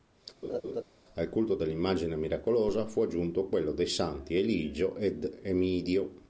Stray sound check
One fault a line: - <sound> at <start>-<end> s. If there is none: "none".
- laugh at 0.4-0.8 s